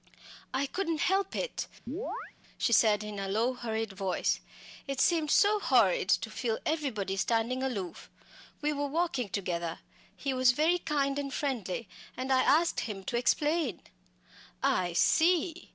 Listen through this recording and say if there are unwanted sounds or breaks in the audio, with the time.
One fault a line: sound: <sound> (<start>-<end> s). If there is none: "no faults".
sound: chirp (1.9-2.3 s)